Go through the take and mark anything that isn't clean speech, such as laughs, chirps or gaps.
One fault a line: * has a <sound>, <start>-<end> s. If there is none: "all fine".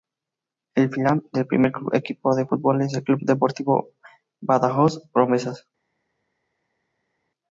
all fine